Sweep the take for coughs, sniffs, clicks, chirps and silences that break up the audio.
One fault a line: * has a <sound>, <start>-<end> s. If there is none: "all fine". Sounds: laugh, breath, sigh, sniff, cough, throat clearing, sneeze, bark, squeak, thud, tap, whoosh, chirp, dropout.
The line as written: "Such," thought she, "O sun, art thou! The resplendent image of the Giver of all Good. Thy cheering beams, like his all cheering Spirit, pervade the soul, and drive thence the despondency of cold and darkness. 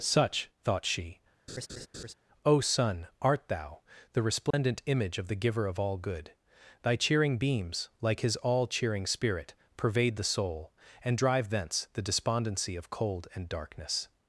* has a laugh, 1.5-2.1 s
* has a dropout, 4.5-4.5 s